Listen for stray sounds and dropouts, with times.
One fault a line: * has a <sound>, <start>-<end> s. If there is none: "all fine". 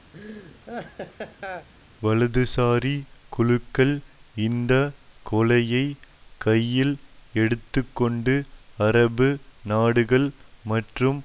* has a laugh, 0.1-1.7 s